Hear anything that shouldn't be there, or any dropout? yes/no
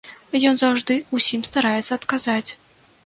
no